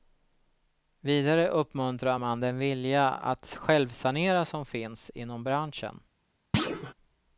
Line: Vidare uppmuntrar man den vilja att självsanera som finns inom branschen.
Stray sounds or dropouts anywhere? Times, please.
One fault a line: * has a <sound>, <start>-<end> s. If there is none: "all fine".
* has a thud, 6.5-6.9 s